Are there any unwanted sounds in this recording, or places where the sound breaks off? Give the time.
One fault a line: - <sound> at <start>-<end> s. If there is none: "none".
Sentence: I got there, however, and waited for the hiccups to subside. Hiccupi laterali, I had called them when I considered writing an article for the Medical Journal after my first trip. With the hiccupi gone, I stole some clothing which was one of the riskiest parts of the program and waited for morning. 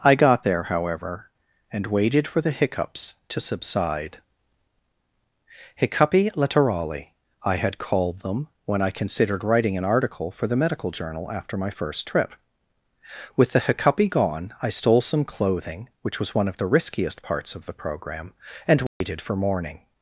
- dropout at 18.9-19.0 s